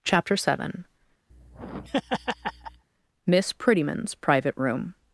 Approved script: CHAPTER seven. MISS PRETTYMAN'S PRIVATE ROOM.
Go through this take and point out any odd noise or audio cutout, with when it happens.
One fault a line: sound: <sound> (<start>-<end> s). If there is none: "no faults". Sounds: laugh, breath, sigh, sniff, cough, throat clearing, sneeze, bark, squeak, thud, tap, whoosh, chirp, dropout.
sound: laugh (1.3-2.9 s)